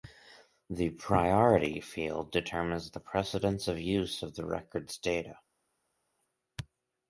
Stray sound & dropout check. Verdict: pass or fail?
pass